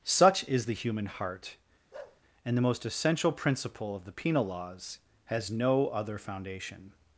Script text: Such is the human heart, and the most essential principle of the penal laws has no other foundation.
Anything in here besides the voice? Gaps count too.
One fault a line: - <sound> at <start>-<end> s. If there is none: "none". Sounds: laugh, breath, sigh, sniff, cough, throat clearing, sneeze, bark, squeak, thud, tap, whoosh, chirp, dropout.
- bark at 1.9-2.2 s